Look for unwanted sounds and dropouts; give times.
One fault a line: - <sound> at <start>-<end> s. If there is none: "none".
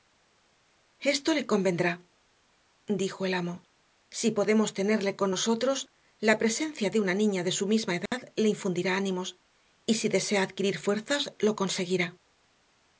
- dropout at 8.1-8.1 s